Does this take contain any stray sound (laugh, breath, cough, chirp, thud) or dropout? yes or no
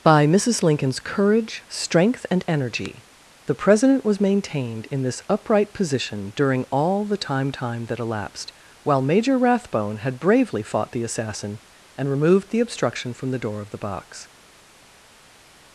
no